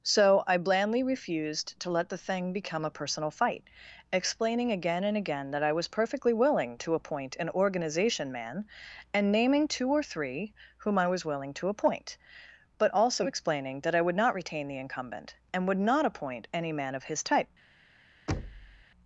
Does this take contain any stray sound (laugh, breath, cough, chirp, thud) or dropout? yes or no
yes